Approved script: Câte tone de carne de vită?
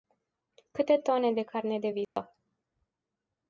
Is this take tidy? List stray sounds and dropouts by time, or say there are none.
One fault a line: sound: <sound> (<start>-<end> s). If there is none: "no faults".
sound: dropout (2.0-2.2 s)